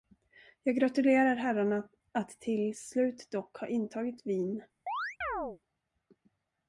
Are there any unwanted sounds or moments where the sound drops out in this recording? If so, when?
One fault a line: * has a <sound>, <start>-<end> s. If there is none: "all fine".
* has a chirp, 4.9-5.6 s